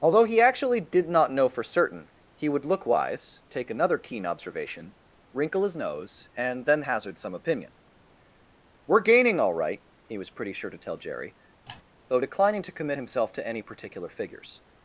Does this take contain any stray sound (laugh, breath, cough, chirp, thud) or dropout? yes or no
yes